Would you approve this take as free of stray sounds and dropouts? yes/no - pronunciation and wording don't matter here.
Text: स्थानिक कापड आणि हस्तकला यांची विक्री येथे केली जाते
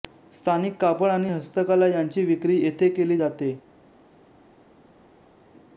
yes